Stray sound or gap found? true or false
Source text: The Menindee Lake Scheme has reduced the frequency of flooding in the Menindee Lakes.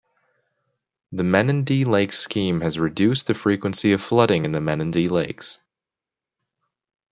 false